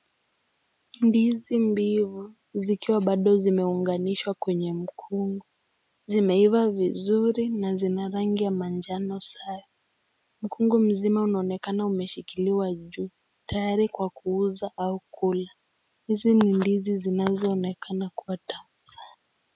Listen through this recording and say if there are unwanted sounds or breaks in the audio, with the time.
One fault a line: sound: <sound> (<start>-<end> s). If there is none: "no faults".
no faults